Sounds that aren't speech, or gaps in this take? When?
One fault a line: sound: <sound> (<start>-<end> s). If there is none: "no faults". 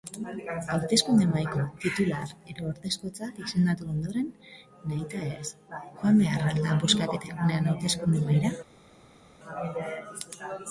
no faults